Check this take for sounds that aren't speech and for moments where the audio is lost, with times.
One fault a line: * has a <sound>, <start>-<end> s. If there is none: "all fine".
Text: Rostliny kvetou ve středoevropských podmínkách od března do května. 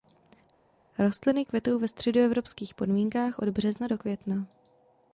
all fine